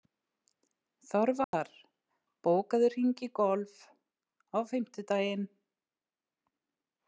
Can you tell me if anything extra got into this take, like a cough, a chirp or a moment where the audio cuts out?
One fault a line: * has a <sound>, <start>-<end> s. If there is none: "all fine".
* has a dropout, 1.4-1.5 s